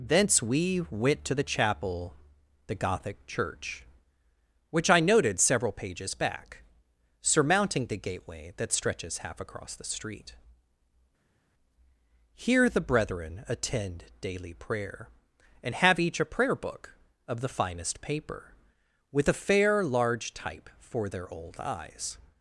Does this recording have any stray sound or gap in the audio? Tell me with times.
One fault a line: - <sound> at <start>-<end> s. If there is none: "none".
none